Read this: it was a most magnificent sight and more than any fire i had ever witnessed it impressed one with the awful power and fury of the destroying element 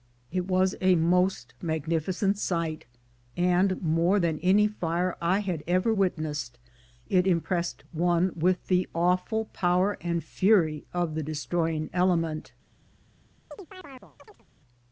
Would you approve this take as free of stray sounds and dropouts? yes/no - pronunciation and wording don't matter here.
no